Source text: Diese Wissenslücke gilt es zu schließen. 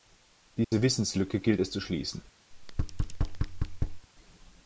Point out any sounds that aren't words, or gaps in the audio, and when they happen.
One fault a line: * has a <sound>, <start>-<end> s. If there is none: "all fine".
* has a dropout, 0.6-0.7 s
* has a thud, 2.5-4.1 s